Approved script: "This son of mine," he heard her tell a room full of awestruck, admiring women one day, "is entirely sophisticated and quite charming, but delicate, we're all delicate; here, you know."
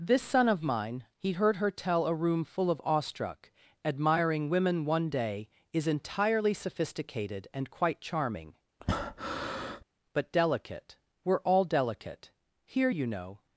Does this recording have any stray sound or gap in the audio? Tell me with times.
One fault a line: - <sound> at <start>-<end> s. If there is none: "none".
- breath at 8.8-9.8 s